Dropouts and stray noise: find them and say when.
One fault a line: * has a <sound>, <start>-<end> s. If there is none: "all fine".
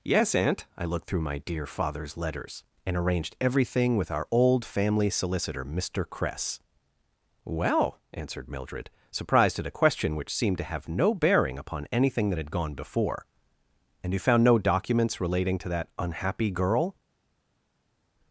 all fine